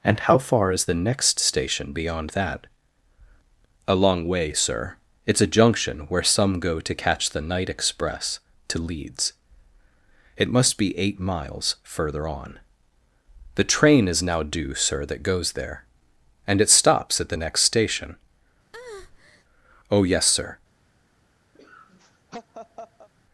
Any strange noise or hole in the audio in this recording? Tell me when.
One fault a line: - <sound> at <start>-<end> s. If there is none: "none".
- breath at 18.7-19.4 s
- laugh at 21.6-23.1 s